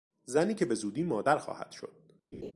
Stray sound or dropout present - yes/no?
yes